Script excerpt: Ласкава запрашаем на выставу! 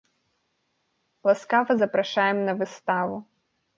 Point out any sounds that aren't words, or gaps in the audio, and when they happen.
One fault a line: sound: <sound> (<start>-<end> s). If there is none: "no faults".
no faults